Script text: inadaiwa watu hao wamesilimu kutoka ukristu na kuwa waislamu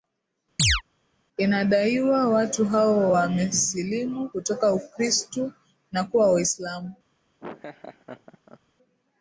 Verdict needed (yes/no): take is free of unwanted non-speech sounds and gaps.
no